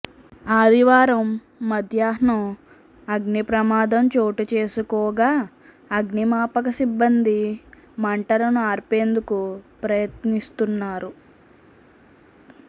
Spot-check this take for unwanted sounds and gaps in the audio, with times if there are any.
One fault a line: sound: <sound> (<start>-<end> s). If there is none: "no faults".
no faults